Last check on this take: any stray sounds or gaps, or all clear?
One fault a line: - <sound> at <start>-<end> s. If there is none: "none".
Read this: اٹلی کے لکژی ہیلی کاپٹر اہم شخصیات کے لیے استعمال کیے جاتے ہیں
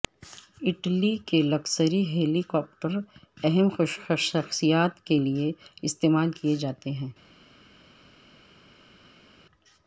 none